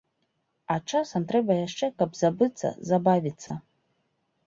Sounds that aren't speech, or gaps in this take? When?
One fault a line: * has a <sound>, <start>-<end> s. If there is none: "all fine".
* has a dropout, 3.5-3.5 s